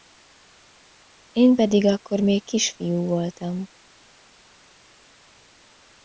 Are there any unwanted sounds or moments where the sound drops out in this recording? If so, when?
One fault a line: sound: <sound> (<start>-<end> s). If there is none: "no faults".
no faults